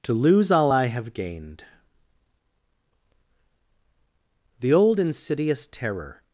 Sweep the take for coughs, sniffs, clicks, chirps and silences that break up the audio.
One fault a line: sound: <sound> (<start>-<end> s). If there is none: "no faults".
no faults